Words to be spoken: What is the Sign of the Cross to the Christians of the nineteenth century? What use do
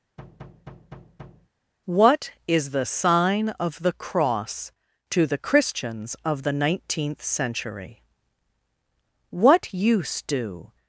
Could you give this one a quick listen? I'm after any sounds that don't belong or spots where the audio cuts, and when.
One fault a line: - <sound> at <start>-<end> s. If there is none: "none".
- thud at 0.2-1.5 s